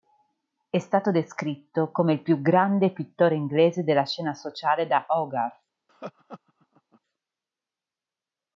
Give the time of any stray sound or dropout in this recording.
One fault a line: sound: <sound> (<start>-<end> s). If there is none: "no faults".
sound: laugh (5.9-7.0 s)